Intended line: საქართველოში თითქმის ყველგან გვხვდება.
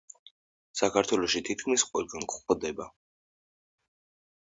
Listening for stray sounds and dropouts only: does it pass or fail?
pass